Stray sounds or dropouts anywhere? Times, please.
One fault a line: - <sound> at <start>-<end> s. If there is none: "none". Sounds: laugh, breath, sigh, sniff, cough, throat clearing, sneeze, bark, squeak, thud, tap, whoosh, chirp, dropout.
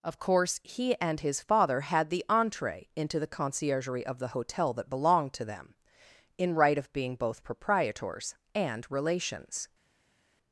none